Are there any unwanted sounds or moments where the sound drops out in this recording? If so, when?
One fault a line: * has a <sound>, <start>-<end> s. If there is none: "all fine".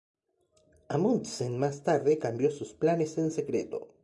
all fine